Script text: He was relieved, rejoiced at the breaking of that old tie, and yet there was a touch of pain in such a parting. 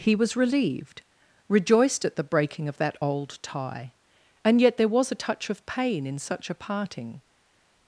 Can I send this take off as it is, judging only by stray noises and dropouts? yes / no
yes